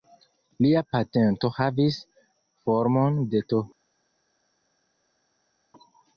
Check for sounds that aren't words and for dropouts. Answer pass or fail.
pass